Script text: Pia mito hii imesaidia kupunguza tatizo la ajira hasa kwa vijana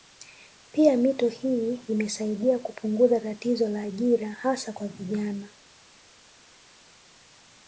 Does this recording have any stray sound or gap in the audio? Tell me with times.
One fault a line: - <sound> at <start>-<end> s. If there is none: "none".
none